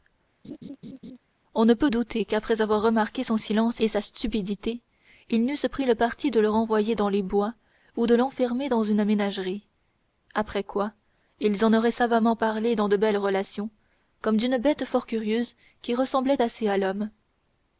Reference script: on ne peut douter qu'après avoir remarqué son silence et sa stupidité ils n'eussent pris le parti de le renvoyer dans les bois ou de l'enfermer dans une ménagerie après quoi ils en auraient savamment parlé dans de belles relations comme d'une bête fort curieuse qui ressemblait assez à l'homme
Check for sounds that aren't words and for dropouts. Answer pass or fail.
fail